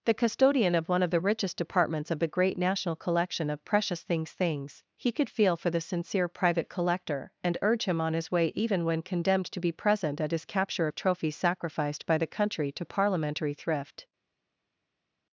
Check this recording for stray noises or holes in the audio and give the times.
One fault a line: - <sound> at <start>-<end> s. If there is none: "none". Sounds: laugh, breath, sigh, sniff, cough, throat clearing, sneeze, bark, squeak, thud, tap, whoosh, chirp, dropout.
none